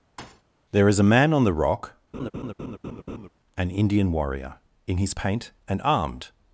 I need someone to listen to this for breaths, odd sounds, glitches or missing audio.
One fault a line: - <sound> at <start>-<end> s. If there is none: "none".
- thud at 0.2-0.4 s
- laugh at 2.1-3.3 s